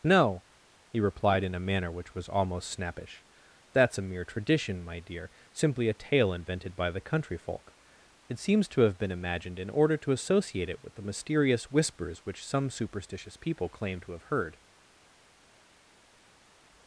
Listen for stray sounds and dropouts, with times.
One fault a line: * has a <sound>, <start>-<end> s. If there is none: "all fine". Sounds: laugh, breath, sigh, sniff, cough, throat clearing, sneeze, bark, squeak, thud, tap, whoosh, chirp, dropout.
all fine